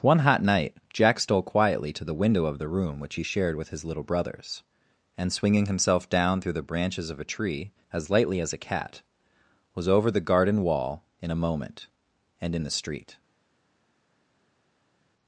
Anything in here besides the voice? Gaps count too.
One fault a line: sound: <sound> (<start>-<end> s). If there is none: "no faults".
no faults